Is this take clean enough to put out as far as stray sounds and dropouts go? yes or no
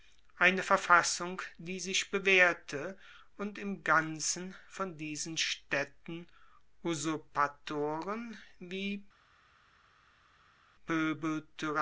yes